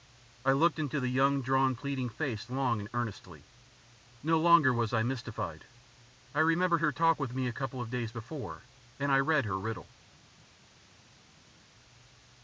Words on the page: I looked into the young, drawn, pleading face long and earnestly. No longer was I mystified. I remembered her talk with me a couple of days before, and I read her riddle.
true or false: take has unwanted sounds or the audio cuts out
false